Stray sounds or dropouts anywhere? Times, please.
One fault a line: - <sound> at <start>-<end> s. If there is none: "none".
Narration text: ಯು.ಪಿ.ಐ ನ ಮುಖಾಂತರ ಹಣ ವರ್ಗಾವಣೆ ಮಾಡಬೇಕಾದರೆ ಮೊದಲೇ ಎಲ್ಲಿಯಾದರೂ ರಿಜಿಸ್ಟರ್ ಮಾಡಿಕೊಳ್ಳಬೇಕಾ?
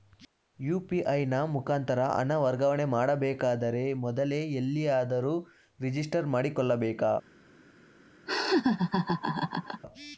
- laugh at 8.3-9.8 s